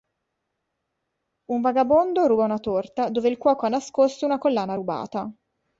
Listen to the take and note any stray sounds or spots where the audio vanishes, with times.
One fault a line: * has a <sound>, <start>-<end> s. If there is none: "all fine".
all fine